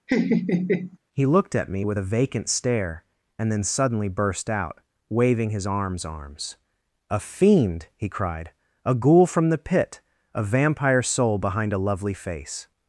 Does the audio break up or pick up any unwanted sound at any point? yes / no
yes